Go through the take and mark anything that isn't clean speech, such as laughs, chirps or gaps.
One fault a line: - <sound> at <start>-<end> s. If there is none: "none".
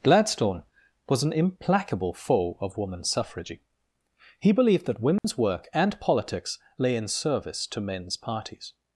- dropout at 5.2-5.2 s